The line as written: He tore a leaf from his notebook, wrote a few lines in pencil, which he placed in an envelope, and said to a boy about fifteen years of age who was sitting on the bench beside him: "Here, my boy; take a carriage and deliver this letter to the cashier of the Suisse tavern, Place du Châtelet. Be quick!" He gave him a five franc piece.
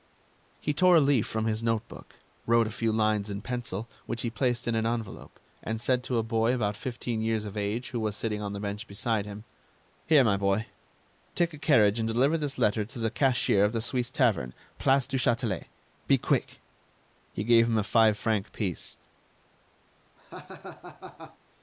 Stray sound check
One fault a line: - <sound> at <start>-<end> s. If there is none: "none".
- laugh at 20.2-21.4 s